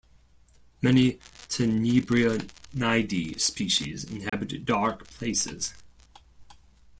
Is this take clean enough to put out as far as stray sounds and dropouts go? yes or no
no